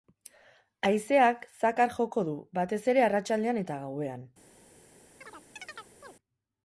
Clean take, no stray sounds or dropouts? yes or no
no